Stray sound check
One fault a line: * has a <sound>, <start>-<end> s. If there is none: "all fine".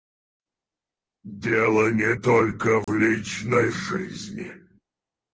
* has a dropout, 2.8-2.9 s